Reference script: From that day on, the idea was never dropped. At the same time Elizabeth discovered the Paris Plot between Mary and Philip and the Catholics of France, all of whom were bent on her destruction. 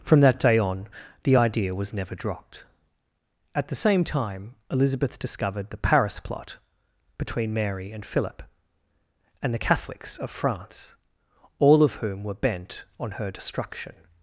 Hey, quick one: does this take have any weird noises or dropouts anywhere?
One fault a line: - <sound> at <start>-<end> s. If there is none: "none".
none